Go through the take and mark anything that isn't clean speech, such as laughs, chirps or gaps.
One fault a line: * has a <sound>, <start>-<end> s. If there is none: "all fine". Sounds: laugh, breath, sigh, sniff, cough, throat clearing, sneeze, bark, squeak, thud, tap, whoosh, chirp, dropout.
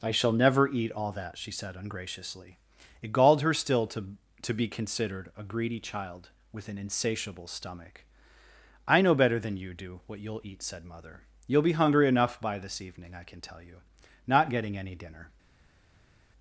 all fine